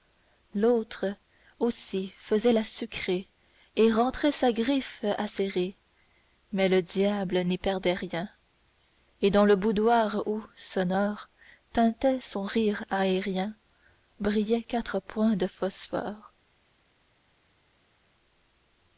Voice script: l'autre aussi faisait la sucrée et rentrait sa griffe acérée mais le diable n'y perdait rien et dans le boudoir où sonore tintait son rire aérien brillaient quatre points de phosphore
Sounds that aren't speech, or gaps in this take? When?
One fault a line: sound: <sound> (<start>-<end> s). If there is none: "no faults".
no faults